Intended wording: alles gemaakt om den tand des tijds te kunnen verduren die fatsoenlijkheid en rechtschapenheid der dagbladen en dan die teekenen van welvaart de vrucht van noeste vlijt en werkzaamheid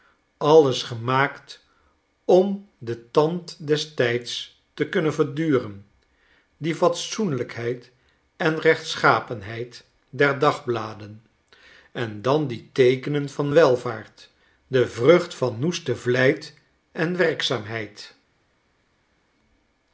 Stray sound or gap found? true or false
false